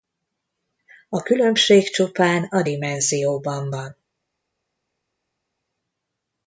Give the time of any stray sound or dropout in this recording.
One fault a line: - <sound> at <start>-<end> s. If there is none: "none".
none